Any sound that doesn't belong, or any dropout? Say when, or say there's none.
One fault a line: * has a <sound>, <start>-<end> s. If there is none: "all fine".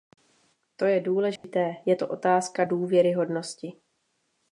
* has a dropout, 1.4-1.4 s